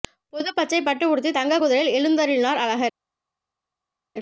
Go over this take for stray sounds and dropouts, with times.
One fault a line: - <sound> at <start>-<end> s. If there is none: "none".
none